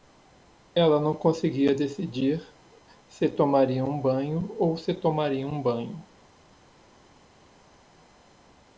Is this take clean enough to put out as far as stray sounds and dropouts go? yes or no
yes